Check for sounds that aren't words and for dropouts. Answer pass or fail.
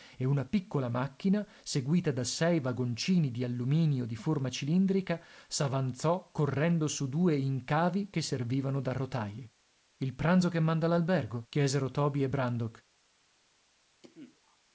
fail